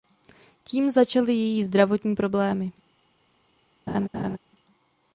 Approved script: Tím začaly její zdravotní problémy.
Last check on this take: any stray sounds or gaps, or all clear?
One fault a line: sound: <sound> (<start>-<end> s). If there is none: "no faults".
sound: laugh (3.9-4.4 s)